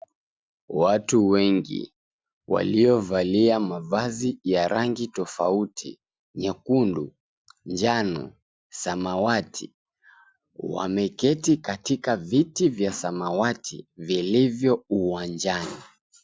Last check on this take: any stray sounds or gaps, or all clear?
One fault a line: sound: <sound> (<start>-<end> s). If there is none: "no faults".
no faults